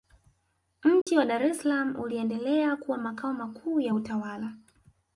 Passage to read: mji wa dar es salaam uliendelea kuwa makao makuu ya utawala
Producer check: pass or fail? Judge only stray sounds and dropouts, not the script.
fail